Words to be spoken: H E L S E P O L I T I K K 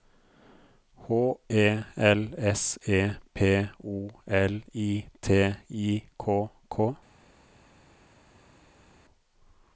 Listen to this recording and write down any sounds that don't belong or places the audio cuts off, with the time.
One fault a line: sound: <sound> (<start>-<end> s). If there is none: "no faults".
no faults